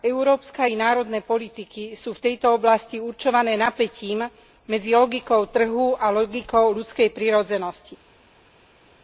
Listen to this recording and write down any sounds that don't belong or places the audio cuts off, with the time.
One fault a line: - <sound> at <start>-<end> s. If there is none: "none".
none